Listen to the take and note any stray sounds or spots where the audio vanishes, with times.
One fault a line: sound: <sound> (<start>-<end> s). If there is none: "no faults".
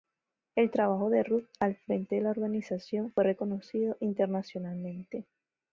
no faults